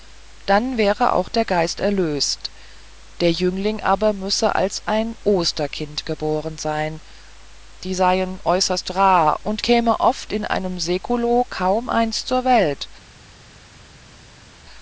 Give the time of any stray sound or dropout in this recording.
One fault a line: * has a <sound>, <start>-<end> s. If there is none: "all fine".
all fine